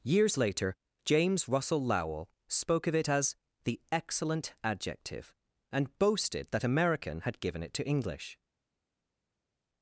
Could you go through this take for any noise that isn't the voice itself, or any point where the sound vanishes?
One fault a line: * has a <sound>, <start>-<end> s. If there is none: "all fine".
all fine